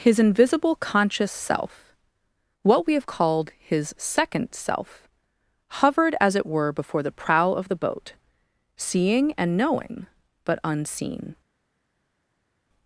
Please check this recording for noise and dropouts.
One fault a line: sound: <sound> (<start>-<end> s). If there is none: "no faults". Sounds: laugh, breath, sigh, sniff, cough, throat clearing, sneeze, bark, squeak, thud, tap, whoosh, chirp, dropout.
no faults